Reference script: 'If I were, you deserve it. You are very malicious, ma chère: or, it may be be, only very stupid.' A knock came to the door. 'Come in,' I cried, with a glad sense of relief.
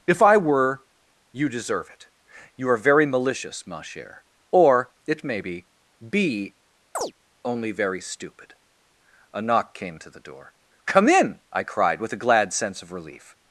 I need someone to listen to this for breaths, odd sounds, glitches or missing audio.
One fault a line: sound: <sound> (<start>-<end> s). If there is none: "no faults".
sound: chirp (6.9-7.1 s)